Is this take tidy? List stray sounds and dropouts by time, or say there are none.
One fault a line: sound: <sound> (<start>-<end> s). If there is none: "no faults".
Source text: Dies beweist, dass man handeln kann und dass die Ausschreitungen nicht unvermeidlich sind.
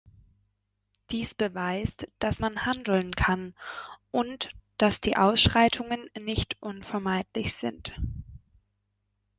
no faults